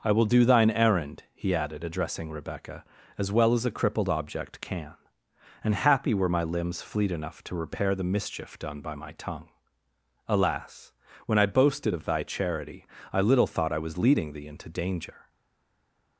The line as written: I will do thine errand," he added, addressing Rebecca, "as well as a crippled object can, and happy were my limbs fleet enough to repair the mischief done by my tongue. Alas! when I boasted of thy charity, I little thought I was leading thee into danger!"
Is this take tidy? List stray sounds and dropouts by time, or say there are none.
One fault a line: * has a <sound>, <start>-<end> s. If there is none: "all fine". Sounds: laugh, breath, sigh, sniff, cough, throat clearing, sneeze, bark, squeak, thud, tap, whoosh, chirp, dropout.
all fine